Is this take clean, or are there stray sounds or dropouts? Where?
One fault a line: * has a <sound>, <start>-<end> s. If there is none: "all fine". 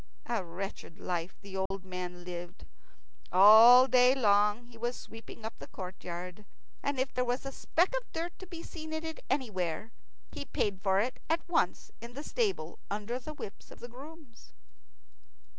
* has a dropout, 1.7-1.7 s